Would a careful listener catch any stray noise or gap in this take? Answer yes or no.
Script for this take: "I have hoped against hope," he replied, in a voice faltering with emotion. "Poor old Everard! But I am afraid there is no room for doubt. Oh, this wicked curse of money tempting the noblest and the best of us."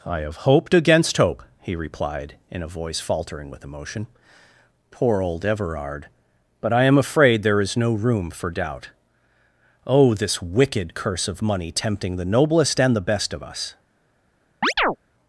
yes